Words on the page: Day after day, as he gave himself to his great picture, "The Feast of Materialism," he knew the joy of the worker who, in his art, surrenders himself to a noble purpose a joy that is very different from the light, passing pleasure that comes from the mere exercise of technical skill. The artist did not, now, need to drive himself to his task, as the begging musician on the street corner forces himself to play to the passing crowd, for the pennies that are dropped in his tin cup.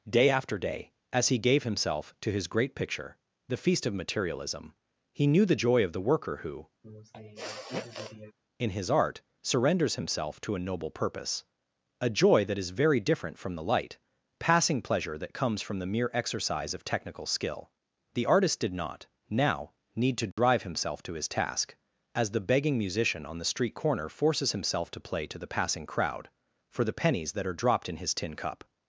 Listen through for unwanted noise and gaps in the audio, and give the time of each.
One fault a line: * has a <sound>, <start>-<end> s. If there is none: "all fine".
* has a sniff, 6.8-8.3 s
* has a dropout, 20.3-20.4 s